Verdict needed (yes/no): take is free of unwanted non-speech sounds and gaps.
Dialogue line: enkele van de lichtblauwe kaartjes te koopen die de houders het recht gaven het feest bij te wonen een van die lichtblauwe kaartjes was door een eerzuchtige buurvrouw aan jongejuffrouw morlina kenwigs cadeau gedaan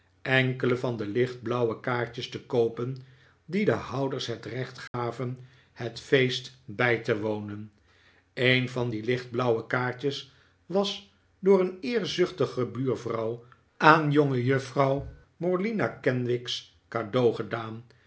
no